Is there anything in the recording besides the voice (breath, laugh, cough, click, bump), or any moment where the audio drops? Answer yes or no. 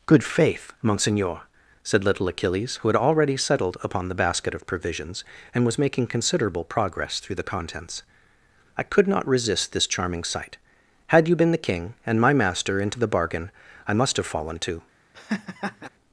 yes